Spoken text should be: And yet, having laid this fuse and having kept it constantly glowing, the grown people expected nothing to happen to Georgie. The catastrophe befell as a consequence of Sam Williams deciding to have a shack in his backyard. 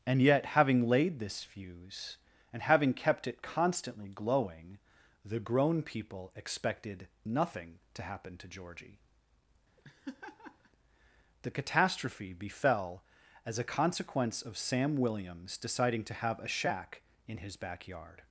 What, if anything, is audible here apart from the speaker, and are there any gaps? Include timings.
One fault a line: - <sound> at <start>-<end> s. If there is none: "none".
- laugh at 9.8-10.7 s